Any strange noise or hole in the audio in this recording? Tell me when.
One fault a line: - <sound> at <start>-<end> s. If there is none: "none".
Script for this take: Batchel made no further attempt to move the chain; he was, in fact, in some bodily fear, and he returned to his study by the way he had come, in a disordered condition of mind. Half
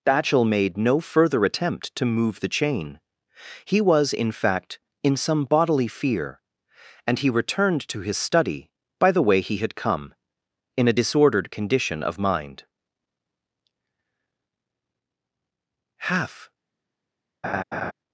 - laugh at 17.4-17.9 s